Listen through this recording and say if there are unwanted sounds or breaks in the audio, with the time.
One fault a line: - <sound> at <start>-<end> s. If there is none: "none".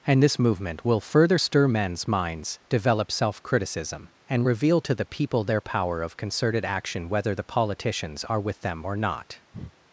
- breath at 9.5-9.7 s